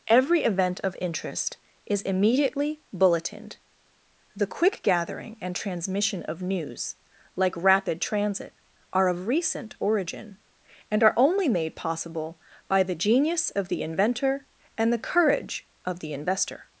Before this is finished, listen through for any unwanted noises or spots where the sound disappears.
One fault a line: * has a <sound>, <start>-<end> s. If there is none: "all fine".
all fine